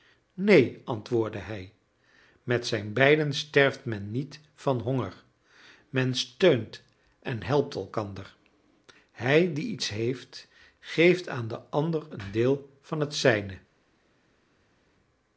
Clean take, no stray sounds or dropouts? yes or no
yes